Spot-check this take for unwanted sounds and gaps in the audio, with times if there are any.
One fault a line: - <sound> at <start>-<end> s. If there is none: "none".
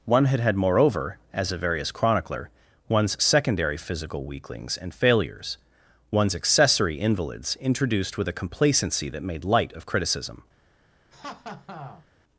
- laugh at 11.1-12.1 s